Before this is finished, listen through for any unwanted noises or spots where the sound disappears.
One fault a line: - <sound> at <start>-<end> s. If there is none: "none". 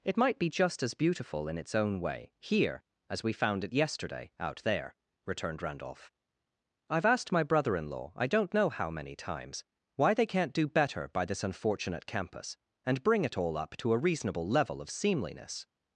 none